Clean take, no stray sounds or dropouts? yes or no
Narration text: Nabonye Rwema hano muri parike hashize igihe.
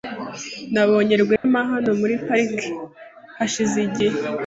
no